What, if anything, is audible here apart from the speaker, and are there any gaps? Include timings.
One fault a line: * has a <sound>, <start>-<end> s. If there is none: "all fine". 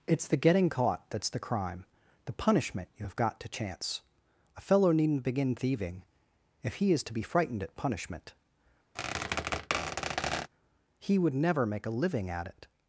* has a squeak, 8.9-10.5 s